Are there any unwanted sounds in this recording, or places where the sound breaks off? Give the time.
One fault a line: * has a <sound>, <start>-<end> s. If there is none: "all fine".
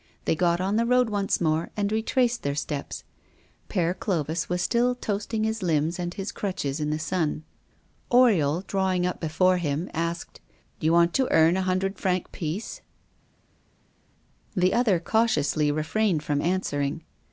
all fine